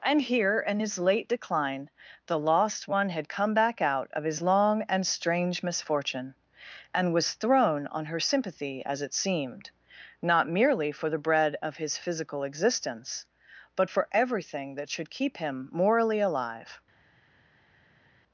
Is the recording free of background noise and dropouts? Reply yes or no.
yes